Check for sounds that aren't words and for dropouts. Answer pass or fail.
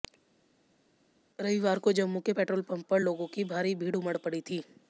pass